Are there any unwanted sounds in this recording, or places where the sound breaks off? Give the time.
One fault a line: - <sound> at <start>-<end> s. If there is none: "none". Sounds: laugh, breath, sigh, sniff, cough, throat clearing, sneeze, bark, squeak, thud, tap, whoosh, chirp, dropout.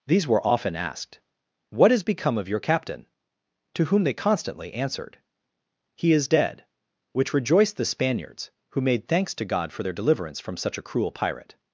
none